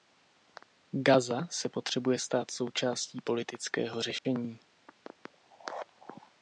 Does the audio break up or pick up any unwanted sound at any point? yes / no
yes